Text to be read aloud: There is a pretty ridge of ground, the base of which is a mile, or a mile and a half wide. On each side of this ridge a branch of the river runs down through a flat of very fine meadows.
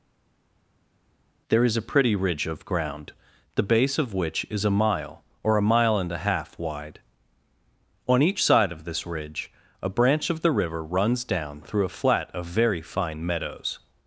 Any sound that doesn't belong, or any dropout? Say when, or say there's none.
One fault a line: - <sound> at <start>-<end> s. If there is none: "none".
none